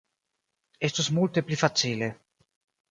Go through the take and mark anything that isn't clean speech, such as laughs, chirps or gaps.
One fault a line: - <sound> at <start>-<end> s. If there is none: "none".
none